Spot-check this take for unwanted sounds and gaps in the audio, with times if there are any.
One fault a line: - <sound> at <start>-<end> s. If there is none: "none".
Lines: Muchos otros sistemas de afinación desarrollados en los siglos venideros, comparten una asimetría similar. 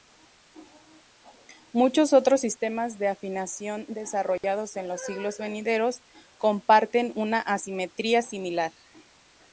- dropout at 4.4-4.4 s